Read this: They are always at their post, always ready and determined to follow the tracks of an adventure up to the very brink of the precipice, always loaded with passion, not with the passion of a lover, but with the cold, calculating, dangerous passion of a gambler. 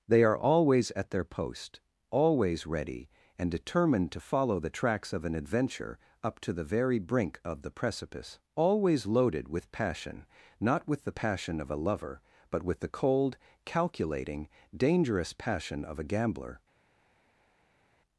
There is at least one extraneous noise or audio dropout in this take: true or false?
false